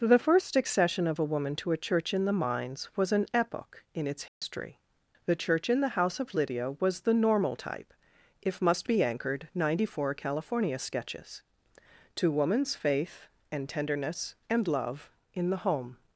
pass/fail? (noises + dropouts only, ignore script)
fail